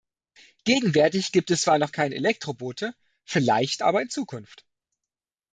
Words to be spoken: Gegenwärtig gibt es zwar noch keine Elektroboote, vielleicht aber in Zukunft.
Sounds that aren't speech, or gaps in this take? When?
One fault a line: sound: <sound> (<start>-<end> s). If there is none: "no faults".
no faults